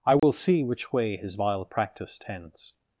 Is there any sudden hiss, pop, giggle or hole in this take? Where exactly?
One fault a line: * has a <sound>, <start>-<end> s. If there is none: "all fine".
* has a dropout, 0.2-0.2 s